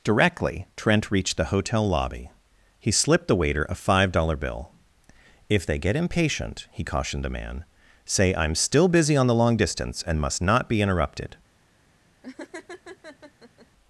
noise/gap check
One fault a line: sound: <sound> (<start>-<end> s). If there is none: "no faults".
sound: laugh (12.2-13.7 s)